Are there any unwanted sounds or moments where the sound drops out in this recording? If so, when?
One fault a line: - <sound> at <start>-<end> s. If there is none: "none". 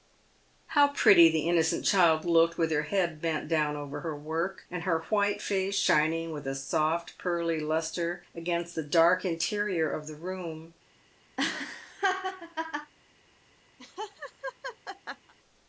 - laugh at 11.4-12.9 s
- laugh at 13.8-15.3 s